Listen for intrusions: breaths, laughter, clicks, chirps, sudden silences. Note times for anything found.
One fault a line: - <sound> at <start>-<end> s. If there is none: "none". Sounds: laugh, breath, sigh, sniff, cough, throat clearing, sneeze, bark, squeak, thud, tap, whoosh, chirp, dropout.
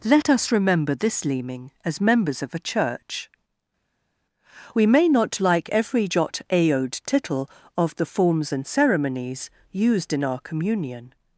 none